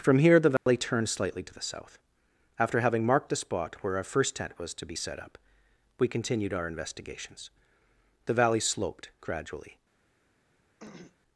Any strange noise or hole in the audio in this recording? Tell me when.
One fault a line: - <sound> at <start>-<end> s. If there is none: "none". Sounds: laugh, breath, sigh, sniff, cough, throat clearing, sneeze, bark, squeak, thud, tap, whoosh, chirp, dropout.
- dropout at 0.6-0.7 s
- throat clearing at 10.8-11.2 s